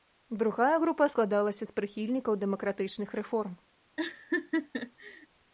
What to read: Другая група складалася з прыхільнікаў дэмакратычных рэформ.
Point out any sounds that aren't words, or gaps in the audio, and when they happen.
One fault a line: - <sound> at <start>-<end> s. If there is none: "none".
- laugh at 4.0-5.3 s